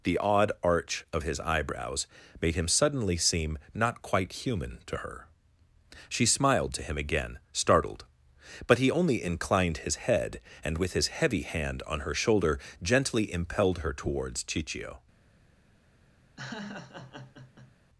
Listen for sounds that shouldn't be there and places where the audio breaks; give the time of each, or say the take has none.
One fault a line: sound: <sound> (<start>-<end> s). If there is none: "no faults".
sound: laugh (16.4-17.7 s)